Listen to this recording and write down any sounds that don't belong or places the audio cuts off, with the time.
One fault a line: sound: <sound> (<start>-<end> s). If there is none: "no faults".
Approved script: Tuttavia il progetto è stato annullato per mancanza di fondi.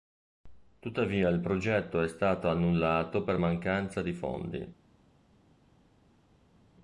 no faults